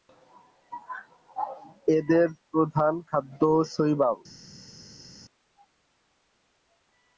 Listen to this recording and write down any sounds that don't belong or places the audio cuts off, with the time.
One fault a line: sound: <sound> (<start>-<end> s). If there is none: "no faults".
no faults